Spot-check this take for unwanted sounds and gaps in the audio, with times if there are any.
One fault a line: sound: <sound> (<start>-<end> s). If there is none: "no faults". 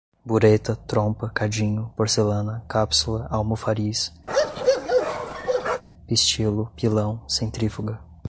sound: bark (4.3-5.8 s)